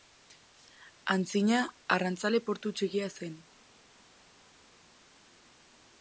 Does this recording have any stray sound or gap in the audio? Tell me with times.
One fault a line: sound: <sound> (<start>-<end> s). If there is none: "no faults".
no faults